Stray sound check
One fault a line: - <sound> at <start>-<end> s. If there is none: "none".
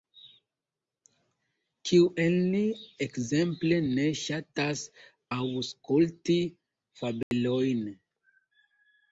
- dropout at 7.2-7.3 s